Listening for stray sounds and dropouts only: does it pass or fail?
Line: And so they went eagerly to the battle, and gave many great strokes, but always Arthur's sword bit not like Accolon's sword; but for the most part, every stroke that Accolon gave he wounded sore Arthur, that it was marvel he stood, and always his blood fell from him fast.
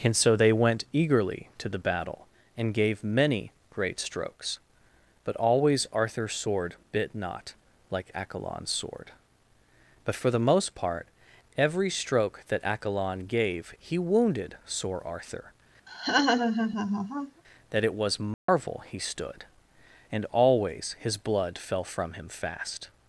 fail